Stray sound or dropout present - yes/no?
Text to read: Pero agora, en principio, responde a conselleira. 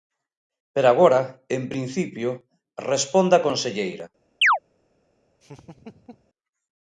yes